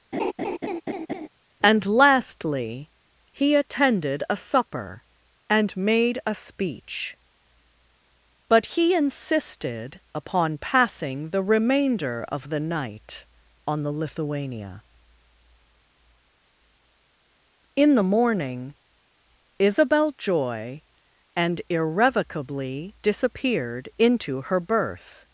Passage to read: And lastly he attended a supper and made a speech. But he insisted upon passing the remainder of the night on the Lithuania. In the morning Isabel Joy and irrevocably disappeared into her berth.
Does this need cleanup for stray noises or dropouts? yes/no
yes